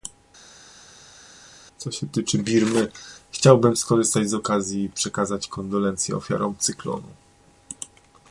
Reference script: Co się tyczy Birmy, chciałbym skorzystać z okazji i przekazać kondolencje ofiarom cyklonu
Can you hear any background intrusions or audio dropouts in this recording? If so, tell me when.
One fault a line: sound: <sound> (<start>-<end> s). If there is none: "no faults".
no faults